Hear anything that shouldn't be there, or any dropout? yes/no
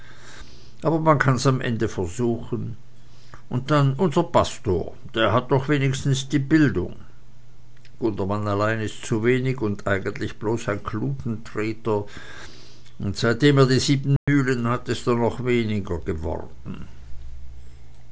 yes